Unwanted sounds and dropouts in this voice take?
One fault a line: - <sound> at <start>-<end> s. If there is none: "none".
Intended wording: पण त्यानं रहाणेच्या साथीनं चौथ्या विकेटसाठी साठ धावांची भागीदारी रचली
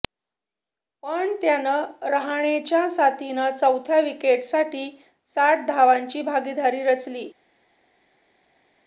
none